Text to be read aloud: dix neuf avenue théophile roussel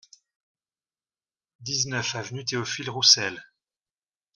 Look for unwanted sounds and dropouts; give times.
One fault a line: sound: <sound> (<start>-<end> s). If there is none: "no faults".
no faults